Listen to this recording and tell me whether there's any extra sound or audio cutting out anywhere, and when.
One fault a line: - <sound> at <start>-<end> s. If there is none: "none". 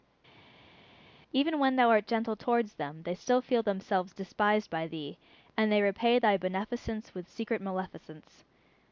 none